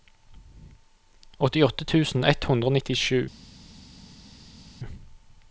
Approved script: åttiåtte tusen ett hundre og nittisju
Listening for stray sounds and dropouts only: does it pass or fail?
pass